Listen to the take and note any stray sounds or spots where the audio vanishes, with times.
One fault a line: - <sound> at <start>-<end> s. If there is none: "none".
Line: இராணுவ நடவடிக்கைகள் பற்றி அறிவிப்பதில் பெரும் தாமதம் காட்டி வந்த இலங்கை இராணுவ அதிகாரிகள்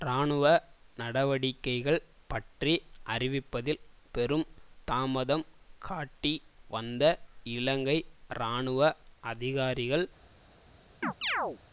- chirp at 11.0-11.6 s